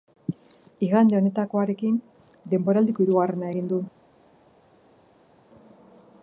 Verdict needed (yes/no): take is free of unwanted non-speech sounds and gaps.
yes